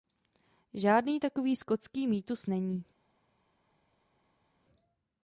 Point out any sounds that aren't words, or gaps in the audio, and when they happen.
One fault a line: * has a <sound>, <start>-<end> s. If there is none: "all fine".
all fine